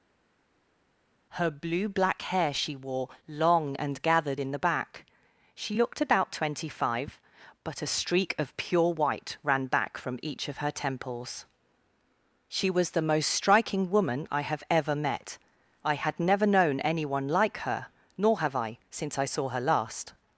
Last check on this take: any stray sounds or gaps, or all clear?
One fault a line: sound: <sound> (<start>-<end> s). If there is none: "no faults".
no faults